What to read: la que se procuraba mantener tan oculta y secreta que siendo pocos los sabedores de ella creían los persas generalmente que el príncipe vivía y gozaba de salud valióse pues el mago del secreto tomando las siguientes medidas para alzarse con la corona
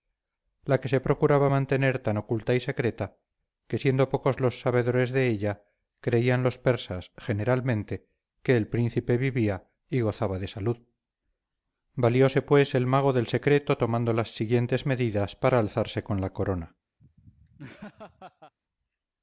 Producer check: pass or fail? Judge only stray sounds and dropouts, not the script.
fail